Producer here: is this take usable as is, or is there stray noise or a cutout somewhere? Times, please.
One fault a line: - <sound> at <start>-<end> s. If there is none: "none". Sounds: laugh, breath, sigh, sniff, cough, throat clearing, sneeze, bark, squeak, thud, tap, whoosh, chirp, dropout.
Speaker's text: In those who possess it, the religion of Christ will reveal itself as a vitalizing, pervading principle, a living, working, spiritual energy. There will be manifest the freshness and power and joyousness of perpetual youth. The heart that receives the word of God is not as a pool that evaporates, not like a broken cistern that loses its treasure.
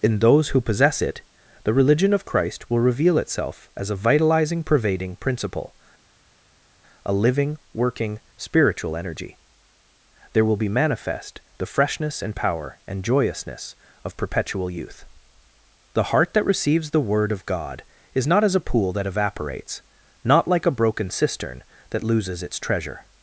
none